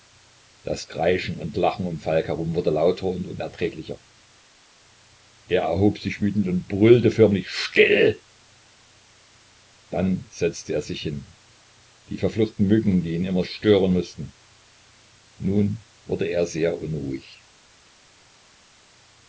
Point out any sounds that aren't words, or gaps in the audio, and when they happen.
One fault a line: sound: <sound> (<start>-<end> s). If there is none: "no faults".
no faults